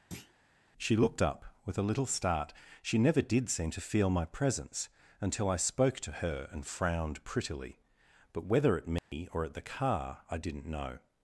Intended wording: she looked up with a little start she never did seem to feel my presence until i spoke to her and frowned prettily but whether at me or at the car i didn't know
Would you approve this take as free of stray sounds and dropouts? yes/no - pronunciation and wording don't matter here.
no